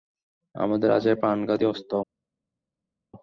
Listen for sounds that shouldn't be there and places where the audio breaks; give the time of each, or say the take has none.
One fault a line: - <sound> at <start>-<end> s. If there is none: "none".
none